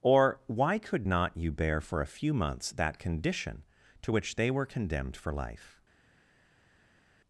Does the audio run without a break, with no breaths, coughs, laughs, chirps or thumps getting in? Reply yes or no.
yes